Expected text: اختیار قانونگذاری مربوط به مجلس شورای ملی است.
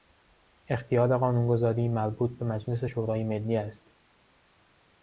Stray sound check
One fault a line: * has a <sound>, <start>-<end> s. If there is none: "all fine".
all fine